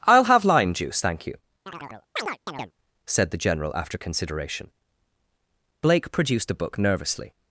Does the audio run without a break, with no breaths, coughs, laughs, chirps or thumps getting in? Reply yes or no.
no